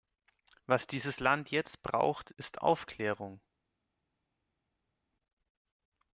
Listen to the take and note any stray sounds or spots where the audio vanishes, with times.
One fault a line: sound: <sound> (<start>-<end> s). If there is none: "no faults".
no faults